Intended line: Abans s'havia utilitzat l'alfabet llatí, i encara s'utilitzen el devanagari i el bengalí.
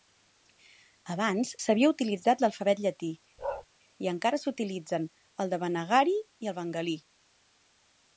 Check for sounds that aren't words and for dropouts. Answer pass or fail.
fail